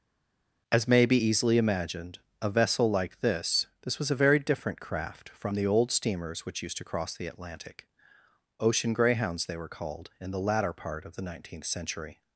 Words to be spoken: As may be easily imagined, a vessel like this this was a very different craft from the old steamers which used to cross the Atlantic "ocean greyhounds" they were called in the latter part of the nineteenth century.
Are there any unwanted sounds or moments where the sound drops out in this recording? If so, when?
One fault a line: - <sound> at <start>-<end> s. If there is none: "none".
none